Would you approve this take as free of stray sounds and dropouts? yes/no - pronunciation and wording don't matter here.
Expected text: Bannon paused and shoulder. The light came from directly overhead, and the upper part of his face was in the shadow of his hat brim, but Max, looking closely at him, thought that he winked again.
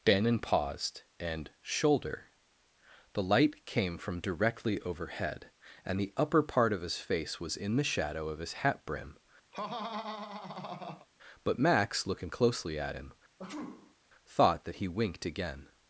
no